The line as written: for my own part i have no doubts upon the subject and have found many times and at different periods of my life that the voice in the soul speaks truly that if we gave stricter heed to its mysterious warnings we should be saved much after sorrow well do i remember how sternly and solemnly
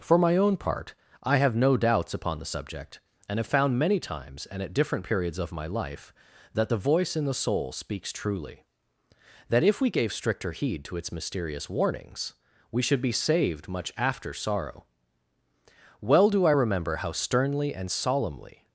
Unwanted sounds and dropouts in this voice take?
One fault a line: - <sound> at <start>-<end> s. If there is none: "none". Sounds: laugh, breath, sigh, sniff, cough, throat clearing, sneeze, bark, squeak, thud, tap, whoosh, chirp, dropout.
none